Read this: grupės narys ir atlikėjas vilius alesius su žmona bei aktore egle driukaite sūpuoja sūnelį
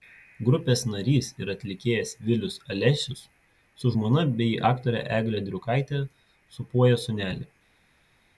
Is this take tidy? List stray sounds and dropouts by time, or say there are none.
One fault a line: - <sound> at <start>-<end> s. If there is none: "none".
none